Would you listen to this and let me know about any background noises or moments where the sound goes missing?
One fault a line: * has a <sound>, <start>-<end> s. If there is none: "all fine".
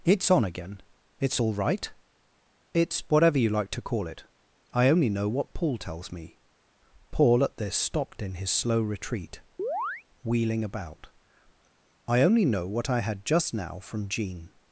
* has a chirp, 9.6-10.0 s